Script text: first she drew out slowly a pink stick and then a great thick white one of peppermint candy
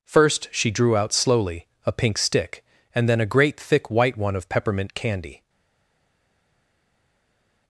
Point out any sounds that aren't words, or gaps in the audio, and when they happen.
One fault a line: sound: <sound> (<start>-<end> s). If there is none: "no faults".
no faults